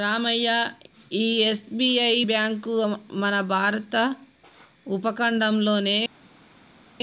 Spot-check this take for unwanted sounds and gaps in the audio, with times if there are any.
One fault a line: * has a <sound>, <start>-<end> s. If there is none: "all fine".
all fine